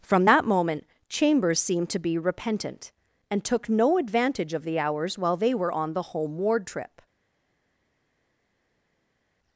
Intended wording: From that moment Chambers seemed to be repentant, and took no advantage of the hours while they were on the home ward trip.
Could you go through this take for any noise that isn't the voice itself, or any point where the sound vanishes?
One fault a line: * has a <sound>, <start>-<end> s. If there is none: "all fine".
all fine